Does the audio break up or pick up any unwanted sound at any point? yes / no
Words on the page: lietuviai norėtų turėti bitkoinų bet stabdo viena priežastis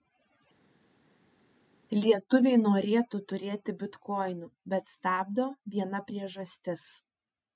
no